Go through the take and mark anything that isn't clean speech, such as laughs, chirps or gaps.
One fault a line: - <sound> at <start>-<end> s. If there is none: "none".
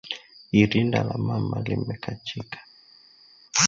none